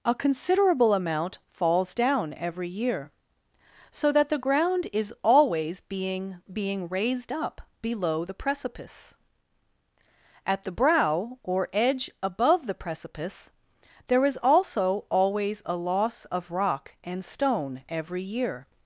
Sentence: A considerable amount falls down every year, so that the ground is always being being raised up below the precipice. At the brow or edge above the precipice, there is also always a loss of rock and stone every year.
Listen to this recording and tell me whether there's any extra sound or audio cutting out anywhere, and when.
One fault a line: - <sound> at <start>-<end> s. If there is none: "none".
none